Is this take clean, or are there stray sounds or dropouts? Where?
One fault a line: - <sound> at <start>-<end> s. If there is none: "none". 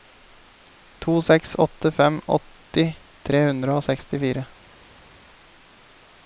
none